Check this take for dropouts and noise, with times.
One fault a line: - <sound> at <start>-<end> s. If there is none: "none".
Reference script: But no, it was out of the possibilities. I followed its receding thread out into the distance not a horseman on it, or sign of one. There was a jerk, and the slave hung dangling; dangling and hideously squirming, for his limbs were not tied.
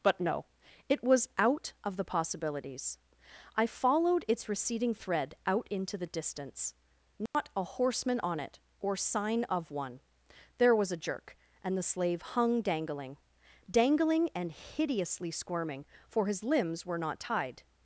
- dropout at 7.3-7.3 s